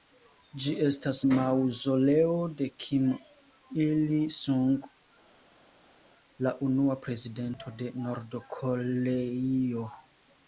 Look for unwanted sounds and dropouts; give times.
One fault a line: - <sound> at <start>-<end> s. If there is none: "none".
none